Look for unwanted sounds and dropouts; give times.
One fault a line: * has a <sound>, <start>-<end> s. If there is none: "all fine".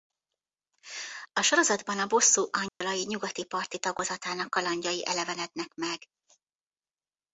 * has a dropout, 2.7-2.8 s